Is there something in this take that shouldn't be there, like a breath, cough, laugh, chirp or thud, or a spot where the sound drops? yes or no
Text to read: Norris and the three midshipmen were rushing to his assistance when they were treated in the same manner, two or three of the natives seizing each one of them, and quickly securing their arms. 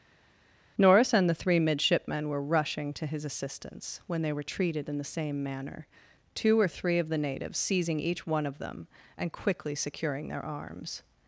no